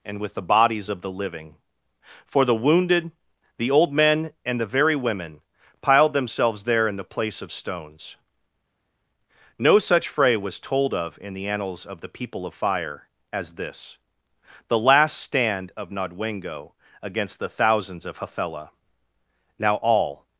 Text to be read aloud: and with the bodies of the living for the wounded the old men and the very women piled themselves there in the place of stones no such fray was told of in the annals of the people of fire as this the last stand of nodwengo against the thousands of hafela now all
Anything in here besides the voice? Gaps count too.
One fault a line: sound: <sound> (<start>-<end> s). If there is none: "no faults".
no faults